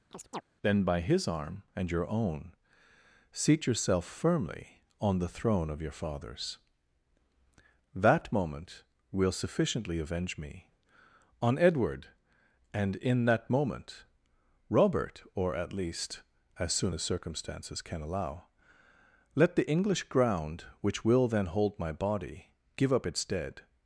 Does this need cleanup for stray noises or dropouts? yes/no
yes